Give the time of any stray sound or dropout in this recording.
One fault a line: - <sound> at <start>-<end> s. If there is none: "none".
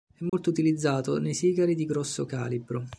- dropout at 0.3-0.3 s